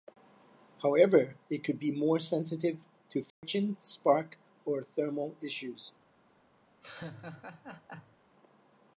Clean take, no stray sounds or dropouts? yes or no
no